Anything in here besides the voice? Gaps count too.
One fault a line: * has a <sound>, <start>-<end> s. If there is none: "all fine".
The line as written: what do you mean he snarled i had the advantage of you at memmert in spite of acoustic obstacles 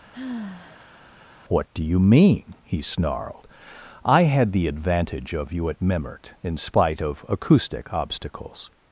* has a sigh, 0.1-1.1 s